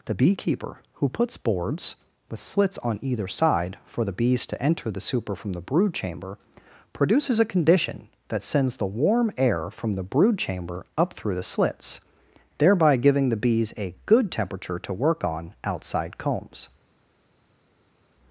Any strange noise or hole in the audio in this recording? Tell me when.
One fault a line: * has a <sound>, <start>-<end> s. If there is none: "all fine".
all fine